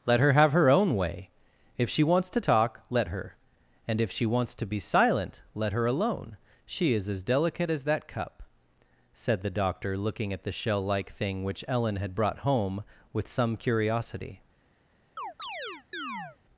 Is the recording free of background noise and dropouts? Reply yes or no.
no